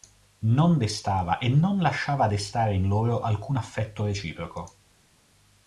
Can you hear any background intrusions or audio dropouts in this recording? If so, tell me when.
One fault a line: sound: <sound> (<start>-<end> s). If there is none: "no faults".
no faults